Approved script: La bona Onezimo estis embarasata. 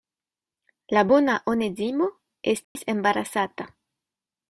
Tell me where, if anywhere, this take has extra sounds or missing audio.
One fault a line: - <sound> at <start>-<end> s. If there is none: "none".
- dropout at 2.6-2.8 s